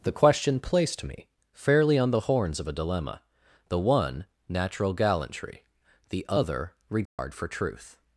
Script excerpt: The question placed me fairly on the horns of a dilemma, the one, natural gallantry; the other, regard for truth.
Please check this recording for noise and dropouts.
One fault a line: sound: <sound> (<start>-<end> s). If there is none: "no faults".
sound: dropout (7.1-7.2 s)